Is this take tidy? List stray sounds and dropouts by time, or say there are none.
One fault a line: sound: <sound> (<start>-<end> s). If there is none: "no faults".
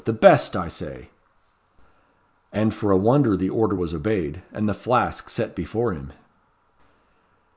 no faults